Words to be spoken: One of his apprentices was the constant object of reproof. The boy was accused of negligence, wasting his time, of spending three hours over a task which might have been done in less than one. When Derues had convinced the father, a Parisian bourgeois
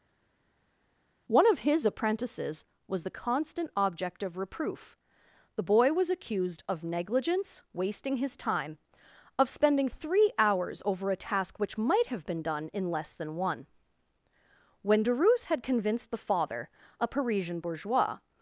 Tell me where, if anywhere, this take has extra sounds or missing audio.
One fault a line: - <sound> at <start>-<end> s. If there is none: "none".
none